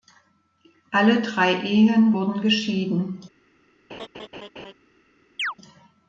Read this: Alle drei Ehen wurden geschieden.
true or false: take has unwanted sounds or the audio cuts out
true